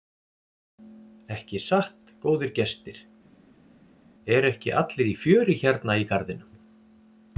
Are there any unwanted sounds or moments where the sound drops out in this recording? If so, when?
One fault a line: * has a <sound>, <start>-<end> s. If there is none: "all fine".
all fine